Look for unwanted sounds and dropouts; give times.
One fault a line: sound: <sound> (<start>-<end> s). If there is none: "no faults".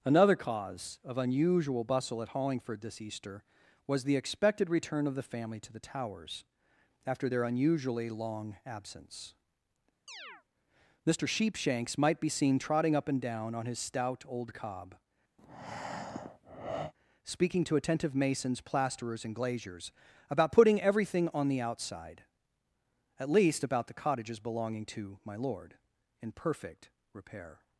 sound: chirp (10.1-10.4 s)
sound: breath (15.4-16.9 s)